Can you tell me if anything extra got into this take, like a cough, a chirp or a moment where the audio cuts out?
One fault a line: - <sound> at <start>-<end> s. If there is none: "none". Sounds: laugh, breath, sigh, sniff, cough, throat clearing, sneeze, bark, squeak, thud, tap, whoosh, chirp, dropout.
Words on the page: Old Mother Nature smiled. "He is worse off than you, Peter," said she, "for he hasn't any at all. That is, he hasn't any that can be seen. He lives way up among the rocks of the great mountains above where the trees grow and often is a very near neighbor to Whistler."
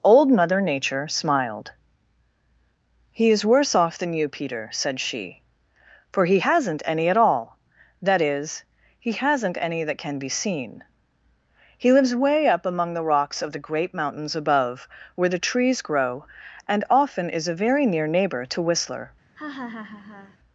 - laugh at 19.4-20.4 s